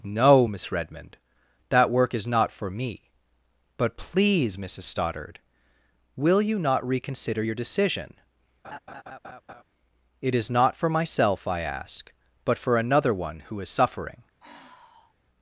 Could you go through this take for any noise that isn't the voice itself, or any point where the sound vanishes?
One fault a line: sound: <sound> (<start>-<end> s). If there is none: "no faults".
sound: laugh (8.6-9.6 s)
sound: sigh (14.4-15.1 s)